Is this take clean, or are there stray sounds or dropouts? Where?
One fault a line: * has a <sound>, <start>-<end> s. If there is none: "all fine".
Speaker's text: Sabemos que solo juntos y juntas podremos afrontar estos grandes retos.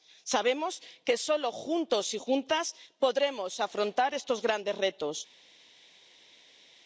all fine